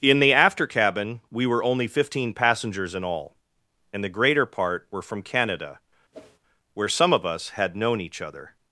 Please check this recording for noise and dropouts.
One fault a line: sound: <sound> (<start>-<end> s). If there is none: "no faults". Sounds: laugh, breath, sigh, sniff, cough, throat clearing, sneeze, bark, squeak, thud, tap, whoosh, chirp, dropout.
sound: whoosh (6.1-6.4 s)